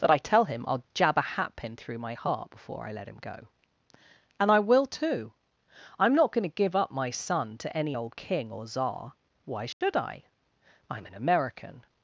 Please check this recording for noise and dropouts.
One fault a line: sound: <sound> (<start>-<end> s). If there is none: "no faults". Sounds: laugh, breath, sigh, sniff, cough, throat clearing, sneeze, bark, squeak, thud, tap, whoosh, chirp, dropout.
sound: dropout (9.7-9.8 s)